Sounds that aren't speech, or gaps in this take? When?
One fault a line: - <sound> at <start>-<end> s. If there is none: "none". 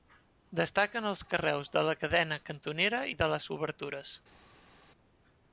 none